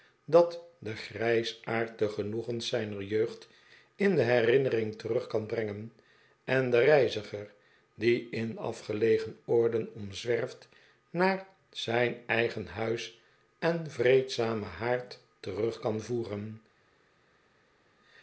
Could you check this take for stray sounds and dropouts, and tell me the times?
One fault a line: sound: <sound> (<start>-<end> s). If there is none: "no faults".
no faults